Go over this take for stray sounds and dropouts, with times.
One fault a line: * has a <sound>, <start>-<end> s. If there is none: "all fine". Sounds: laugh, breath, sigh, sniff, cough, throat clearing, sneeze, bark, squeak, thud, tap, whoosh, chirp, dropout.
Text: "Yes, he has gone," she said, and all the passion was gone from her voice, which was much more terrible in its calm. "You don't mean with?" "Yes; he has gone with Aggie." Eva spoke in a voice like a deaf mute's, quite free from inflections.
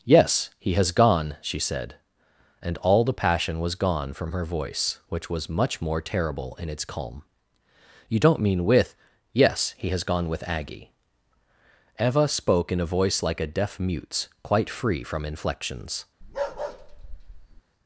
* has a bark, 16.2-17.6 s